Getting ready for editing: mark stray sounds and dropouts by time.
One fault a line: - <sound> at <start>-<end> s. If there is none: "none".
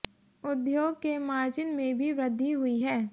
none